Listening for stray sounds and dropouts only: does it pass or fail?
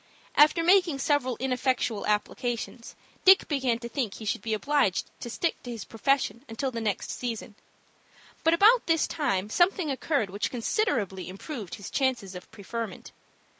pass